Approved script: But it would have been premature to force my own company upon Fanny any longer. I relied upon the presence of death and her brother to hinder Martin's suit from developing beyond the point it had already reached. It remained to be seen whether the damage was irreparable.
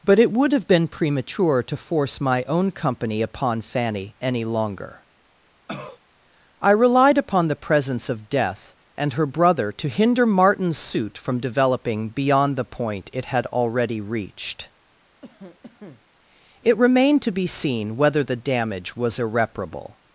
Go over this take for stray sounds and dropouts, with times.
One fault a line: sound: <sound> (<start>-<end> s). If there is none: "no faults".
sound: cough (5.7-6.0 s)
sound: cough (15.2-16.1 s)